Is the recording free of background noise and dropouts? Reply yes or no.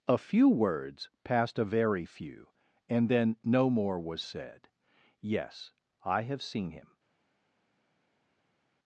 yes